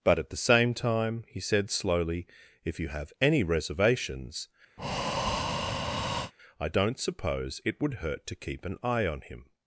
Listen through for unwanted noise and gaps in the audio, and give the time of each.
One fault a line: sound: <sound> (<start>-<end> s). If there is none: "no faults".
sound: breath (4.8-6.3 s)